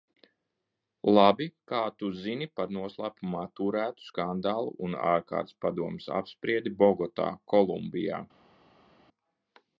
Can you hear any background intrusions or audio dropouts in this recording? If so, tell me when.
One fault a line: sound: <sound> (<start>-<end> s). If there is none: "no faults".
no faults